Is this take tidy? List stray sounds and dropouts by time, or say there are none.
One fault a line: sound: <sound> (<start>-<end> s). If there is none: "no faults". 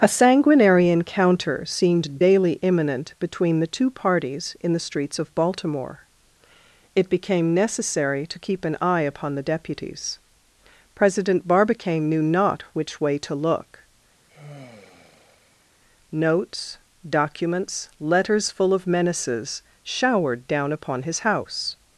sound: sigh (14.3-15.7 s)